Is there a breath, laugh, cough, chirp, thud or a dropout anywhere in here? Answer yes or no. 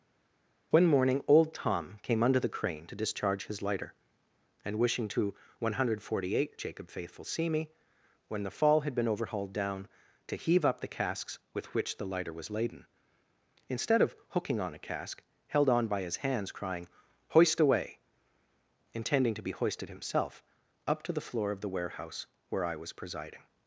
no